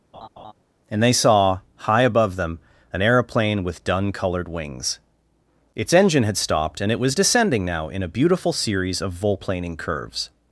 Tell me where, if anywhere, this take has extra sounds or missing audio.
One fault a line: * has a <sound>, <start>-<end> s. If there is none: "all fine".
* has a laugh, 0.1-0.5 s